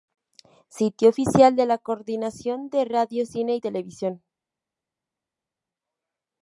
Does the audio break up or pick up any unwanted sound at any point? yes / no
no